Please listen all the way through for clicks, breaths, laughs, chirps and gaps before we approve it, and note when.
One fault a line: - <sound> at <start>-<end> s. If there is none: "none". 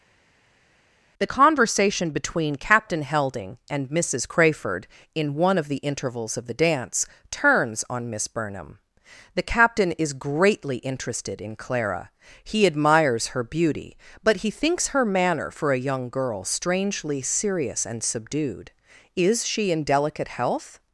none